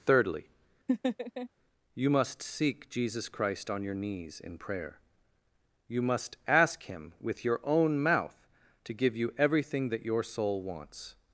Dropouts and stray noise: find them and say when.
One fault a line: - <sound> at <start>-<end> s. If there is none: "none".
- laugh at 0.9-1.5 s